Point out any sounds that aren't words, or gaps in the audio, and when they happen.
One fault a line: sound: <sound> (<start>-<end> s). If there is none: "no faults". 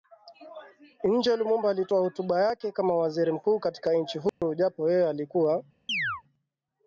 sound: dropout (4.3-4.4 s)
sound: chirp (5.9-6.2 s)